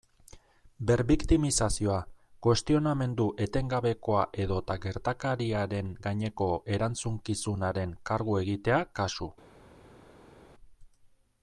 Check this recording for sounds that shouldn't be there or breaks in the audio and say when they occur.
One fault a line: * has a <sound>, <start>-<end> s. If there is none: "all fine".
all fine